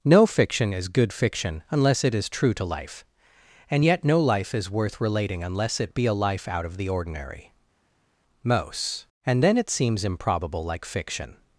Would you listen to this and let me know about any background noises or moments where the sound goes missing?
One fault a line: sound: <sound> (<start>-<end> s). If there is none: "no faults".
no faults